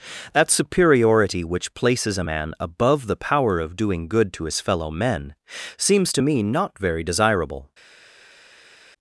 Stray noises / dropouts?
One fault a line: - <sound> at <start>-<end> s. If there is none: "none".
none